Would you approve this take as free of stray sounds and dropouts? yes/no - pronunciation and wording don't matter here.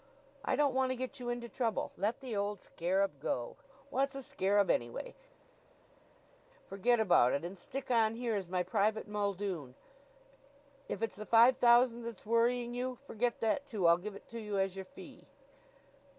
yes